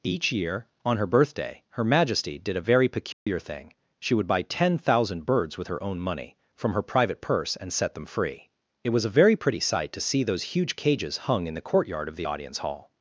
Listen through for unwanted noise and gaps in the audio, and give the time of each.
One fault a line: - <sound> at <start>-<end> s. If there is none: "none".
- dropout at 3.1-3.3 s